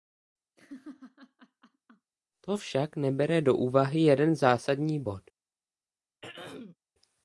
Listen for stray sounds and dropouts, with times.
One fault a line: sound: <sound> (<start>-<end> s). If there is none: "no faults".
sound: laugh (0.6-2.1 s)
sound: throat clearing (6.2-6.8 s)